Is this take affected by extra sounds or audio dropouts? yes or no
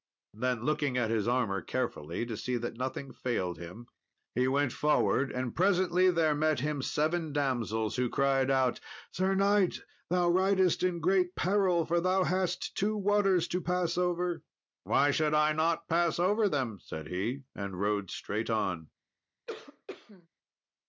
yes